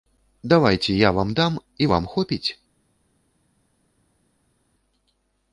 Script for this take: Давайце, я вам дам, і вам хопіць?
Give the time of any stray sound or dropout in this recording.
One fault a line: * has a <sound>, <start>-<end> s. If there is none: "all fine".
all fine